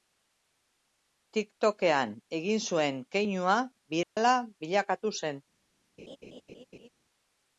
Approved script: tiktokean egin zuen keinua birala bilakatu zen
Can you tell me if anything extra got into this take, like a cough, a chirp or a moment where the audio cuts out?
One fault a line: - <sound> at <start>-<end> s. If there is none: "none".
- dropout at 4.0-4.2 s
- laugh at 6.0-6.9 s